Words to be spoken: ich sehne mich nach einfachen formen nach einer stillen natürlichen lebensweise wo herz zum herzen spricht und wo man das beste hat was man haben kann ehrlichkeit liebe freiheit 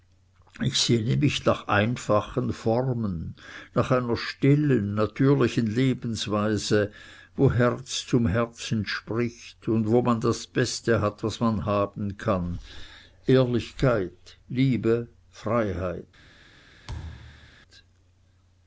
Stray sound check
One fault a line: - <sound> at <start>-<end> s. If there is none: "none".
- thud at 16.9-17.6 s